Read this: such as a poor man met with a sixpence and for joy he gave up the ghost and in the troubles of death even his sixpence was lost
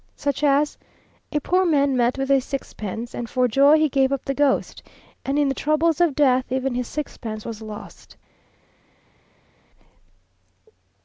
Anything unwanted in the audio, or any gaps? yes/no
no